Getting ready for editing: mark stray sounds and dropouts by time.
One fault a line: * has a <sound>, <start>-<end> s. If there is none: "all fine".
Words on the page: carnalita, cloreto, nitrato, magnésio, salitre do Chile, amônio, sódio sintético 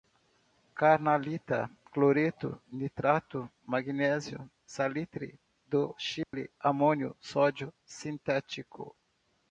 * has a dropout, 6.2-6.3 s